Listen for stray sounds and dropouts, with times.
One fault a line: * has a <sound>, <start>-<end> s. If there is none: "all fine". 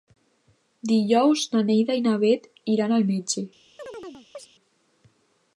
* has a chirp, 3.8-4.5 s